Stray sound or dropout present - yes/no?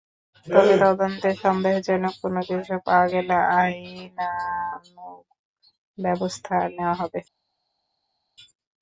no